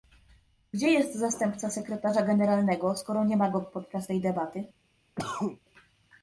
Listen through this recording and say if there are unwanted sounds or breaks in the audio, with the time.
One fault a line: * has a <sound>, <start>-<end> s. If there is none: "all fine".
* has a cough, 5.2-5.6 s